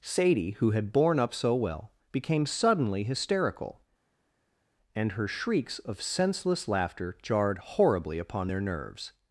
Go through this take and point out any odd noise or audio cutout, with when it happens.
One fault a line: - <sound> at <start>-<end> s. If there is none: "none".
none